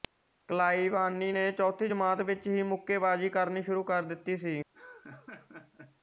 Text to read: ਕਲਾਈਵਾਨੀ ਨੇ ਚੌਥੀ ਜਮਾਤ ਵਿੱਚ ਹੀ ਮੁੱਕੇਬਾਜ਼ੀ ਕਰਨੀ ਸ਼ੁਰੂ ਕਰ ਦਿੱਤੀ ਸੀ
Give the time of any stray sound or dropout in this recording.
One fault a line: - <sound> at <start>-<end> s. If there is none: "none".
- laugh at 4.7-6.0 s